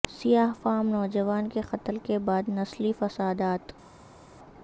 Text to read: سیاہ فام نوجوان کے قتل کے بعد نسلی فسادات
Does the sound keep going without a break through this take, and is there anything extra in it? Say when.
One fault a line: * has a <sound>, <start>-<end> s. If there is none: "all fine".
all fine